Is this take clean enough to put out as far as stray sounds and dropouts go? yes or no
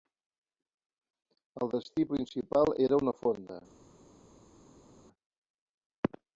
yes